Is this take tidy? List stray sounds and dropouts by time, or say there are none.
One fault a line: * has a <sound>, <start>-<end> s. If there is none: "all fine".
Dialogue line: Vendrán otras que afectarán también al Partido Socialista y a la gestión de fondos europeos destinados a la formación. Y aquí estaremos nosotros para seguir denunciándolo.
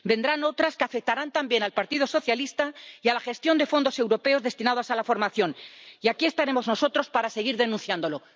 all fine